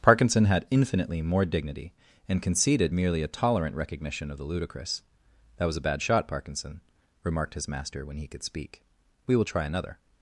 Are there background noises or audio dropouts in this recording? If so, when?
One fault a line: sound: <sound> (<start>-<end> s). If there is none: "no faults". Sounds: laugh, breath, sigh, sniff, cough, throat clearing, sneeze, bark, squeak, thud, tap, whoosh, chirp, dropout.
no faults